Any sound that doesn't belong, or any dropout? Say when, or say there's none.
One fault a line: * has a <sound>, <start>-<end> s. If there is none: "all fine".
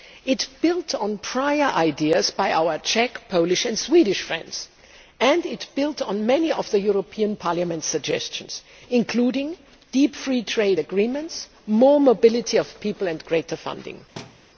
* has a thud, 14.2-14.4 s